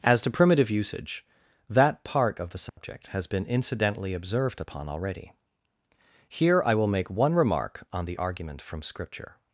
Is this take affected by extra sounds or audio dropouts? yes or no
yes